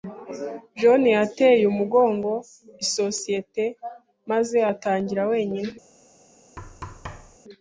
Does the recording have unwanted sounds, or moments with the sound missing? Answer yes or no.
yes